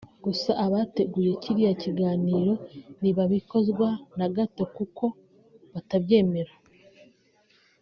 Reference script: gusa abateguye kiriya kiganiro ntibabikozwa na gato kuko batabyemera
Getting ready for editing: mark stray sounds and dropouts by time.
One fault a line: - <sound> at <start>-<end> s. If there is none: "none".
none